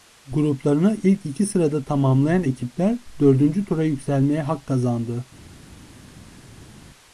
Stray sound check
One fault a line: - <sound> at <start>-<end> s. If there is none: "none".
none